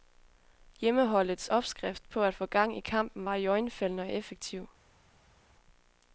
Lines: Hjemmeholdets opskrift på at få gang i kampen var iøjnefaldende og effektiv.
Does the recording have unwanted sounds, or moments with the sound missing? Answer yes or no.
no